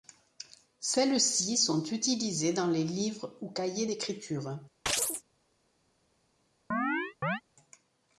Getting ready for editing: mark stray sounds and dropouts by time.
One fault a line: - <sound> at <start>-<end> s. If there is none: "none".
- chirp at 4.9-5.2 s
- chirp at 6.7-7.4 s